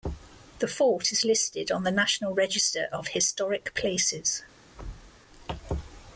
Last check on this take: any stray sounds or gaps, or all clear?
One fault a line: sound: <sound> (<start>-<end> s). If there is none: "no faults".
sound: thud (4.7-5.2 s)